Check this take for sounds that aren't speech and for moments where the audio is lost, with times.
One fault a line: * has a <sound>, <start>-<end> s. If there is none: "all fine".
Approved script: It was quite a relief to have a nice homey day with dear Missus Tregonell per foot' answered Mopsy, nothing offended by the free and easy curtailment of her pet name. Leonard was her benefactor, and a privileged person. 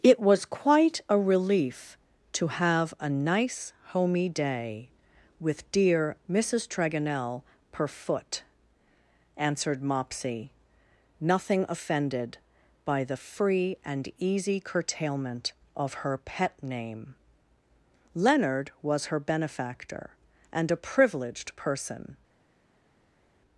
all fine